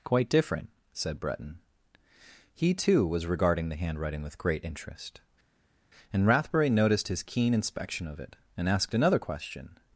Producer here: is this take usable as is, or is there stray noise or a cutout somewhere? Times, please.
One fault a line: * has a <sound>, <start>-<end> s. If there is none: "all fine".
all fine